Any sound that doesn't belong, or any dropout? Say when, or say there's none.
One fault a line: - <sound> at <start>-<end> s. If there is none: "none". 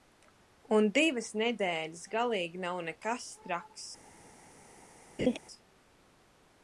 - laugh at 5.2-5.4 s